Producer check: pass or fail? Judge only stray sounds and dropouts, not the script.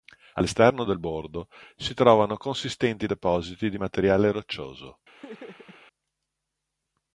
fail